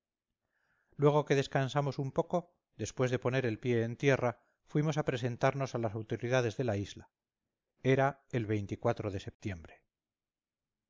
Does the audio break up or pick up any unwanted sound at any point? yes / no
no